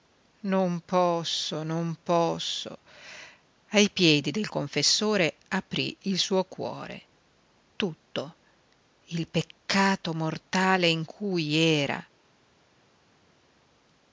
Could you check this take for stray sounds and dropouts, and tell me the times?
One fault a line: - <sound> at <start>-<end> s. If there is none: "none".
none